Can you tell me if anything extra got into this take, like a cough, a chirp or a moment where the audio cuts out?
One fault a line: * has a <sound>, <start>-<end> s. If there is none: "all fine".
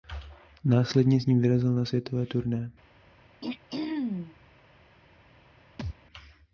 * has a throat clearing, 3.4-4.4 s
* has a thud, 5.8-6.0 s